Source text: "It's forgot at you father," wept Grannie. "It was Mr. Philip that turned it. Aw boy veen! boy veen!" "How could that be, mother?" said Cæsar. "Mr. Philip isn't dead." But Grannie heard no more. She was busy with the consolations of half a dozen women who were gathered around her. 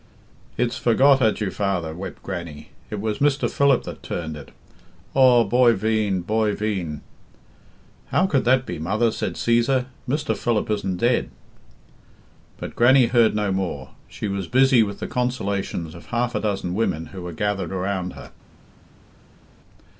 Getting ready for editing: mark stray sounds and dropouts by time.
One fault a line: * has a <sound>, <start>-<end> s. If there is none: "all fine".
all fine